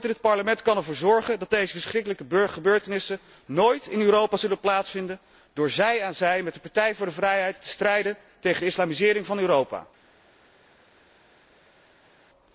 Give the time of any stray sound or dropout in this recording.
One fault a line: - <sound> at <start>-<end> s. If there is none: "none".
none